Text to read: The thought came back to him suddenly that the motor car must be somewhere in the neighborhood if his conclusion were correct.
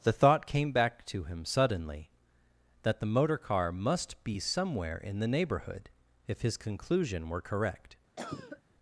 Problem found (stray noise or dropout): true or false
true